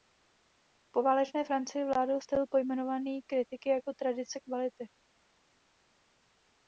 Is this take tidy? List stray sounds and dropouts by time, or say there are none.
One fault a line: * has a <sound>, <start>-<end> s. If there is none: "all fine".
all fine